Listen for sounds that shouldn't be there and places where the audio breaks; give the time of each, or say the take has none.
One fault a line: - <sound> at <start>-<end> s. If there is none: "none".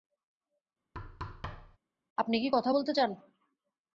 - thud at 0.9-1.8 s